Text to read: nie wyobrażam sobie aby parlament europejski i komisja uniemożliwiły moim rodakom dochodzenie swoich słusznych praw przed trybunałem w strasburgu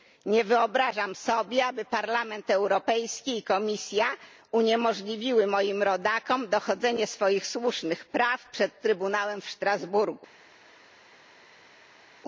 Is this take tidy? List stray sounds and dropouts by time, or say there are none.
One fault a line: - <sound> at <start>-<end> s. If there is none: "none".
none